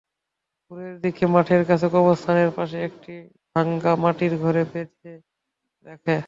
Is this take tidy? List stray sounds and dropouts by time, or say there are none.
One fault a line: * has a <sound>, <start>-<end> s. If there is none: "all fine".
all fine